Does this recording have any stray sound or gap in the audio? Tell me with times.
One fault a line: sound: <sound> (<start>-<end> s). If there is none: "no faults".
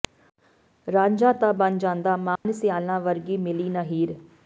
sound: dropout (2.4-2.5 s)